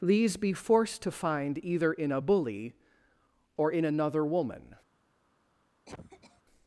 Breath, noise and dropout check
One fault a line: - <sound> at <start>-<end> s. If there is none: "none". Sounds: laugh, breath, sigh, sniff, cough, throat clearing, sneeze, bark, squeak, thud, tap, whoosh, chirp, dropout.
- cough at 5.9-6.4 s